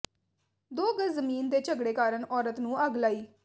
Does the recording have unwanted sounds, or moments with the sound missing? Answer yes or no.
no